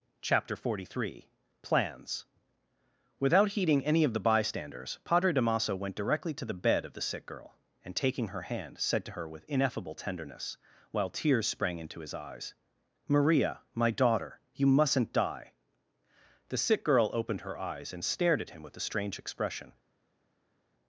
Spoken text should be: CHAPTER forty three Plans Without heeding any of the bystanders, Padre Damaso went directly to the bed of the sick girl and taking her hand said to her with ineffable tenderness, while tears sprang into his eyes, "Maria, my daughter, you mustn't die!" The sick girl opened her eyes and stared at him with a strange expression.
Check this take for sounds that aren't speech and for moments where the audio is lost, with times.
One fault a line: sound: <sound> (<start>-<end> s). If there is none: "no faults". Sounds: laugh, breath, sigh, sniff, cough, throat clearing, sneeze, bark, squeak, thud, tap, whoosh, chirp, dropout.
no faults